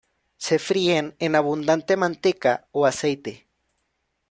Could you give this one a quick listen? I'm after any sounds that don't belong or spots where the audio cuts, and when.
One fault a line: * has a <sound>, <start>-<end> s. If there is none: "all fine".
all fine